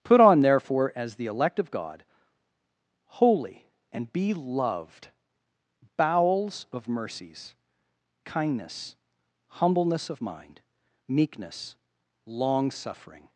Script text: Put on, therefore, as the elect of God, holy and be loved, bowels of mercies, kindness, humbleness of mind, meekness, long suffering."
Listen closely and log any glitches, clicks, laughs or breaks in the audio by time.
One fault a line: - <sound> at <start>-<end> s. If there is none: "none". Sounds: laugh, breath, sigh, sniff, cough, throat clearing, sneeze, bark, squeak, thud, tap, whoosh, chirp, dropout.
none